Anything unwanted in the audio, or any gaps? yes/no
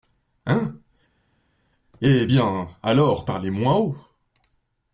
no